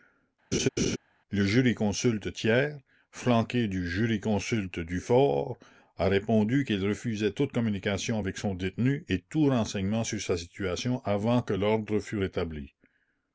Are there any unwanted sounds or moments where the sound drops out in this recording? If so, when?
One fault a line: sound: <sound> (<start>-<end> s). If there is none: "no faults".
sound: laugh (0.5-1.0 s)